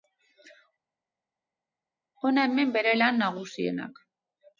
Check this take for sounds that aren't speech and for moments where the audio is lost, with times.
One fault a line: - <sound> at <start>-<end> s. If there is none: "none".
none